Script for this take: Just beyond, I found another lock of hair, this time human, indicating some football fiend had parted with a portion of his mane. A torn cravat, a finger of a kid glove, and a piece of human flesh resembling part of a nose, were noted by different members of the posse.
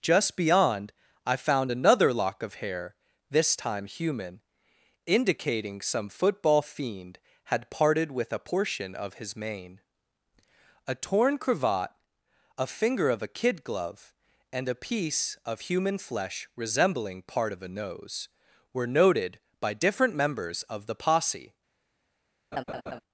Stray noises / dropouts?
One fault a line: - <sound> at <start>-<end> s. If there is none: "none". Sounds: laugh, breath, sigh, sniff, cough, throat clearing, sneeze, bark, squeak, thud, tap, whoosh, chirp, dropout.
- laugh at 22.5-23.0 s